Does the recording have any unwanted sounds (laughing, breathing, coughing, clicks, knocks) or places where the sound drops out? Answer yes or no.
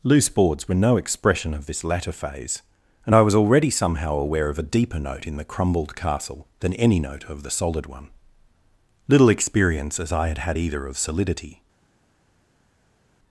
no